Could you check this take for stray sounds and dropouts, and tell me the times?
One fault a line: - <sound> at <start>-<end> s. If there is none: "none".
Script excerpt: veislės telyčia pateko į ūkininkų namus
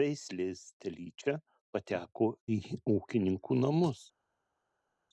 none